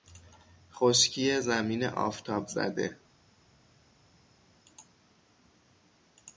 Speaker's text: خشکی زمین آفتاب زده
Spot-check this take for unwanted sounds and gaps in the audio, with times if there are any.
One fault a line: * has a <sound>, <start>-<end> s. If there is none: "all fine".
all fine